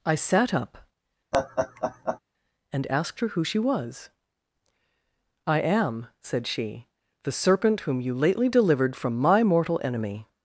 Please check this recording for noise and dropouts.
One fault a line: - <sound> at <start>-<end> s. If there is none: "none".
- laugh at 1.3-2.2 s